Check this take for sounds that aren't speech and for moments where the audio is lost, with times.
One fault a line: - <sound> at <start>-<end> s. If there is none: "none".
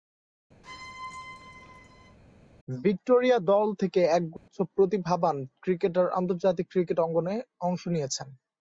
- squeak at 0.6-2.2 s
- dropout at 4.4-4.5 s